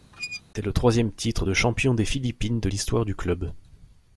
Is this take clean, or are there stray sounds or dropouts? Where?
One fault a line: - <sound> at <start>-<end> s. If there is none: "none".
- squeak at 0.1-0.4 s